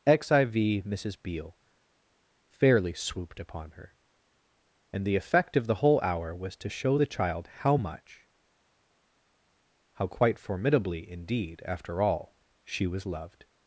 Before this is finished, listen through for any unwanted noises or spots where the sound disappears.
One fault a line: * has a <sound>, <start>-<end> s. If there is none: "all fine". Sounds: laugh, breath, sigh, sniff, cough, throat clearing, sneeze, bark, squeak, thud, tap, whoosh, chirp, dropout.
all fine